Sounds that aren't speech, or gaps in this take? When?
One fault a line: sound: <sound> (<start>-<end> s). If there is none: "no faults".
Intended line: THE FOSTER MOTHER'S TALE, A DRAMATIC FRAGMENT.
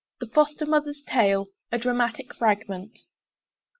no faults